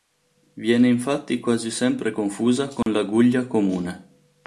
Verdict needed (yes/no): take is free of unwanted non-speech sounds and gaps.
no